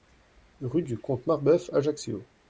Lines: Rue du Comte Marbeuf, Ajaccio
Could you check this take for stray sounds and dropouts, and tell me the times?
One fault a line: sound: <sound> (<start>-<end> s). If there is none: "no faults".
no faults